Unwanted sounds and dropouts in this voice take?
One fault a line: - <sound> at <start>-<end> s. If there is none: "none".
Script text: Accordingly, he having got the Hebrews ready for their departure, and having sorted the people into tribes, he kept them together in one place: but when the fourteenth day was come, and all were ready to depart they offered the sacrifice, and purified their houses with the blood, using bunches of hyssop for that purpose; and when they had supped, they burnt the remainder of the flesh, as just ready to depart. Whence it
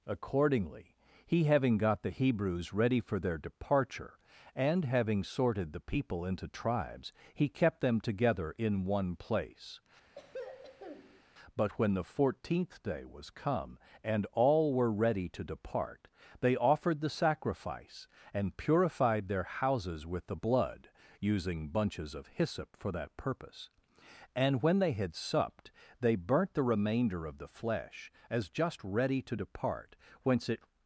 - throat clearing at 10.2-11.2 s